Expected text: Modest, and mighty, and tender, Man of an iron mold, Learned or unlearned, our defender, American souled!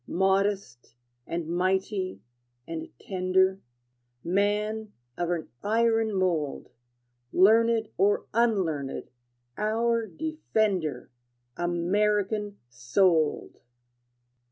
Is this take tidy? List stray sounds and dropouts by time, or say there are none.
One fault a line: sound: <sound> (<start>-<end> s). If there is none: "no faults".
no faults